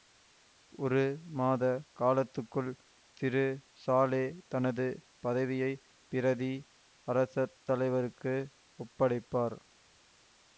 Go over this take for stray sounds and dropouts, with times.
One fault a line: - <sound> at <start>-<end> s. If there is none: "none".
none